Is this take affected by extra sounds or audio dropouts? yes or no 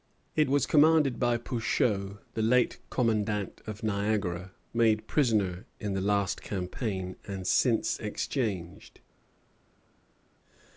no